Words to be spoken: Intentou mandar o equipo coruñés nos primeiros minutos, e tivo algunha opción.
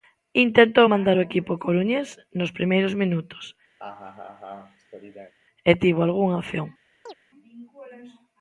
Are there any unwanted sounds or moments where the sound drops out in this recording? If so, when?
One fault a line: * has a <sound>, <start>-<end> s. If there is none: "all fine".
* has a laugh, 3.8-5.3 s
* has a chirp, 7.1-7.1 s